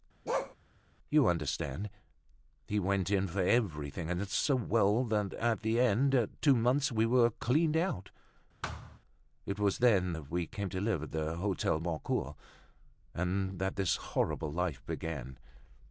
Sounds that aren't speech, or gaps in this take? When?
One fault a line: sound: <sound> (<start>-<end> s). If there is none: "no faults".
sound: bark (0.3-0.6 s)
sound: thud (8.6-9.0 s)